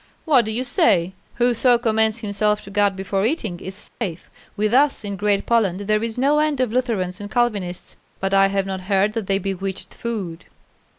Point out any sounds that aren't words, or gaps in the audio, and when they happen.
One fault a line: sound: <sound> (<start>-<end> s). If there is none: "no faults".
sound: dropout (3.9-4.0 s)